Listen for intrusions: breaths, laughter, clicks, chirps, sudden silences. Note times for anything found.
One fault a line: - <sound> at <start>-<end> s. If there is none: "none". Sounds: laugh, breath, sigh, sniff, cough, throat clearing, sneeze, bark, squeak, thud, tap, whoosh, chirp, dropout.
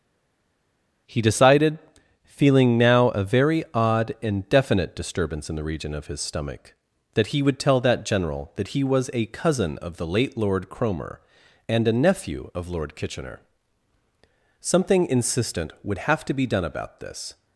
none